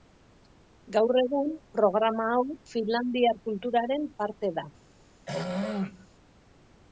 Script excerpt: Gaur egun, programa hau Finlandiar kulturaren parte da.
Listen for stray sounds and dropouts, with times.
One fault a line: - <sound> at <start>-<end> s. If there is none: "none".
- throat clearing at 5.3-6.1 s